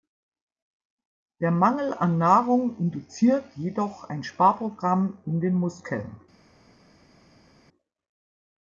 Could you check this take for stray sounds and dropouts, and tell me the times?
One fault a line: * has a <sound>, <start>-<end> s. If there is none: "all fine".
all fine